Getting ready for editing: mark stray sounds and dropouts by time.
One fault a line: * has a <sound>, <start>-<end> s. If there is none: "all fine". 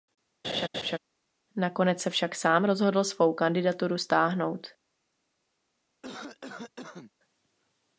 * has a laugh, 0.4-1.0 s
* has a cough, 6.0-7.1 s